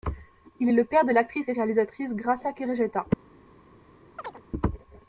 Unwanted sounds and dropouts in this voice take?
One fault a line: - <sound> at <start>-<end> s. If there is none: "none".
- chirp at 4.2-4.4 s